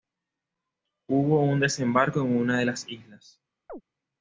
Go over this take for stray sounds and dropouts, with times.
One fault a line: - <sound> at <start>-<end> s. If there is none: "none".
- chirp at 3.7-3.8 s